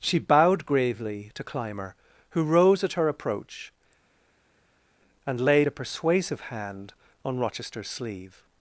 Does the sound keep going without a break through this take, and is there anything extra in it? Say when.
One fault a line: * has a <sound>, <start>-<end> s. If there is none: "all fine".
all fine